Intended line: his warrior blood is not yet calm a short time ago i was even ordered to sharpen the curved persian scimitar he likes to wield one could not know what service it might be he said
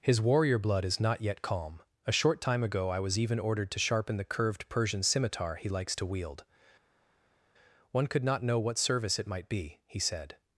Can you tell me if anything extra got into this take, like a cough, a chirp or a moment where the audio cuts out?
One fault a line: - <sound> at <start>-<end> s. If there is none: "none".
none